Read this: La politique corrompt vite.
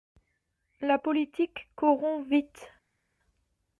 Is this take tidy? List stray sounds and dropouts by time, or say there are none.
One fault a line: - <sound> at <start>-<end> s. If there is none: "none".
none